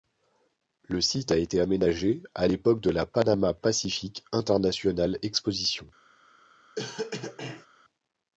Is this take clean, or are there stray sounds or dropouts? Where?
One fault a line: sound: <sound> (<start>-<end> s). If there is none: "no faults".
sound: cough (6.8-7.7 s)